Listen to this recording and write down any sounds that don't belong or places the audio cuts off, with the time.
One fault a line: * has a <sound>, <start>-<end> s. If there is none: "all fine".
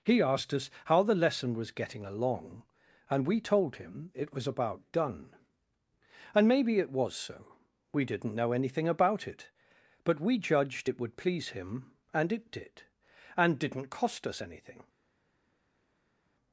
all fine